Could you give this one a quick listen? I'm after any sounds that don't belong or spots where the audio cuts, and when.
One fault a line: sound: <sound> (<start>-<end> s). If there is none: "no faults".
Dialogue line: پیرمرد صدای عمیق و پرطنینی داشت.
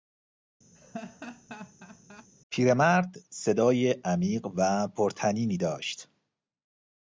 sound: laugh (0.7-2.3 s)